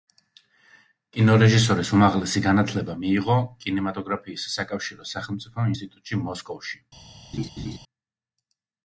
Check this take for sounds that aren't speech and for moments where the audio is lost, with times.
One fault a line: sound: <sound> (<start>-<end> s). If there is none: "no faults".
sound: laugh (7.3-7.8 s)